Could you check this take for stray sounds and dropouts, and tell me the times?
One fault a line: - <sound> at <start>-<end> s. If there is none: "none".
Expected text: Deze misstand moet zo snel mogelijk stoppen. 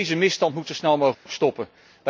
- dropout at 1.1-1.3 s